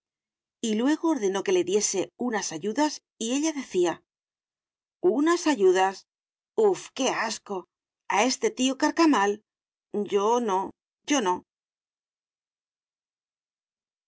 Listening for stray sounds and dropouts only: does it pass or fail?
pass